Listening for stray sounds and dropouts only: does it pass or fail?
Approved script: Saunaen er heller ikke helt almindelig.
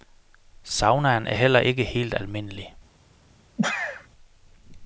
fail